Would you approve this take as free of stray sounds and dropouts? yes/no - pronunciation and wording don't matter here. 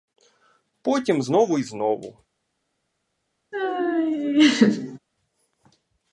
no